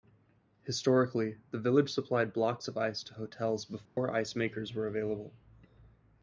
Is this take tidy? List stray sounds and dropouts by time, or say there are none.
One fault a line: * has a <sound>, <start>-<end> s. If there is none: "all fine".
* has a dropout, 3.9-4.0 s